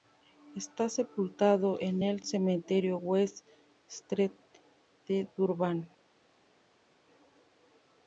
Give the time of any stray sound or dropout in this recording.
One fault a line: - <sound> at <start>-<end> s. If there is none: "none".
none